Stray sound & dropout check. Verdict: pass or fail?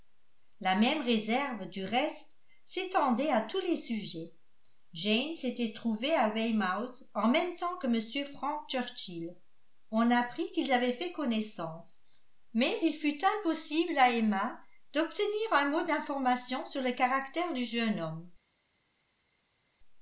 pass